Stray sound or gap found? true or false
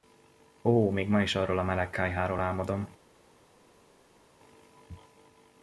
false